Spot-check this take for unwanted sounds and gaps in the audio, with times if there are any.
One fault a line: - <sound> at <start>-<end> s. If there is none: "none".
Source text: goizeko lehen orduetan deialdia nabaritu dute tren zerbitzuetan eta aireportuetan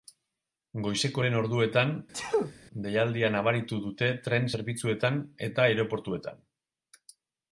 - sneeze at 2.1-2.5 s